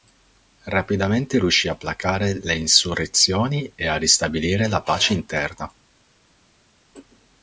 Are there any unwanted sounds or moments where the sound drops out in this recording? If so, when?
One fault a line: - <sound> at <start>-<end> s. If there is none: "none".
none